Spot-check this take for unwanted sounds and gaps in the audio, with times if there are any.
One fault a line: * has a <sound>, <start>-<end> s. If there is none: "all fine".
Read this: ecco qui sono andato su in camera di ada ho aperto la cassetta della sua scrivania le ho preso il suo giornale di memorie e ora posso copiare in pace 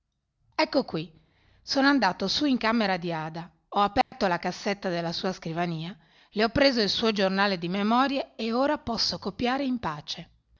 * has a dropout, 4.0-4.1 s